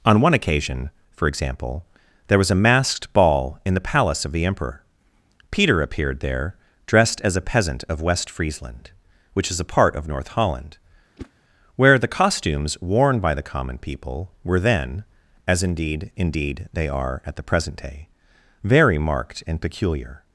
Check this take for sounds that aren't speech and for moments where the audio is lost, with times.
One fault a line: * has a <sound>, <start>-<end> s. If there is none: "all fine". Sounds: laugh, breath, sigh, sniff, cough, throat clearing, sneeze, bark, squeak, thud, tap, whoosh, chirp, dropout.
* has a whoosh, 11.2-11.3 s